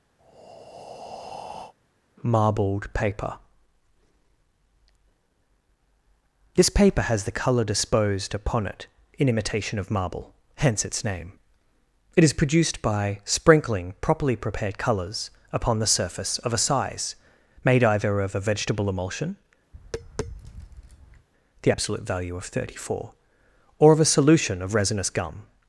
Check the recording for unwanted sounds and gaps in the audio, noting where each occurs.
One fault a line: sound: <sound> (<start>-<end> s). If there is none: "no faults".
sound: breath (0.2-1.7 s)
sound: tap (19.7-21.3 s)